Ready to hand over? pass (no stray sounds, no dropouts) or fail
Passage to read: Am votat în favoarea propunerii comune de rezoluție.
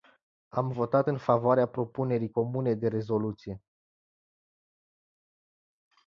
pass